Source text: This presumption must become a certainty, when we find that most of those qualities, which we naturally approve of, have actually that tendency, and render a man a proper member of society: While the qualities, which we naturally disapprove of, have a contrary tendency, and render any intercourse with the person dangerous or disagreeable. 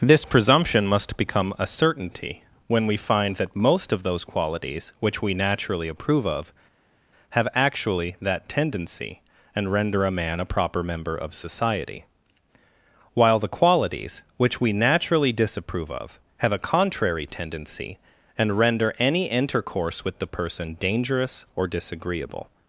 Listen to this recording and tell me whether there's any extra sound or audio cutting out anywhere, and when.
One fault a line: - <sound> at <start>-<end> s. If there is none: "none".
none